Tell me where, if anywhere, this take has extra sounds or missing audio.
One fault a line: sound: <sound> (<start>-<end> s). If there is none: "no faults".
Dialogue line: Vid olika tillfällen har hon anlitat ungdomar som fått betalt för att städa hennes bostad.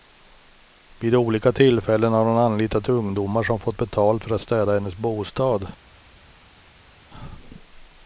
no faults